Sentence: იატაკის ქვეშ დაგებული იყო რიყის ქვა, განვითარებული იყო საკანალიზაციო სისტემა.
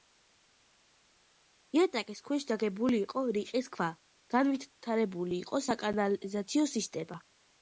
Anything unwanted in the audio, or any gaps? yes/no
no